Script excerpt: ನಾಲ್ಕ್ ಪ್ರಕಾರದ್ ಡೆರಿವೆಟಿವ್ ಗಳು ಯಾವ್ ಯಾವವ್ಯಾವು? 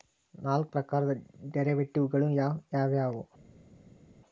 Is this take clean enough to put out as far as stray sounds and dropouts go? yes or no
yes